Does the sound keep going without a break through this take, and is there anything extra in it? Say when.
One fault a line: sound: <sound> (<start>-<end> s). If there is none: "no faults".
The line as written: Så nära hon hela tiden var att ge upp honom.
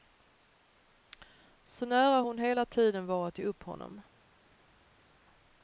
no faults